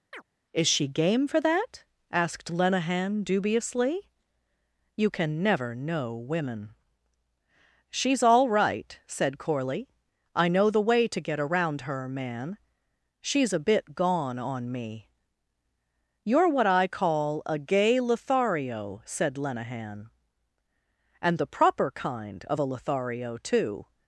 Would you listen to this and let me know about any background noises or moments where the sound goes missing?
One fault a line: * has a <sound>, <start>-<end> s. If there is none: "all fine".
* has a chirp, 0.1-0.2 s